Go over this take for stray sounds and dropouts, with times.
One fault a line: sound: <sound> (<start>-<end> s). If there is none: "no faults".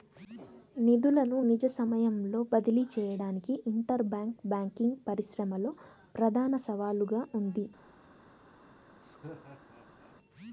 sound: laugh (9.0-10.2 s)